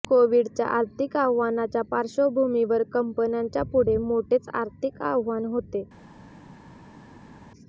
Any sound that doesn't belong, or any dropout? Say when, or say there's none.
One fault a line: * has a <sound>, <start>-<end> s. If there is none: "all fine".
all fine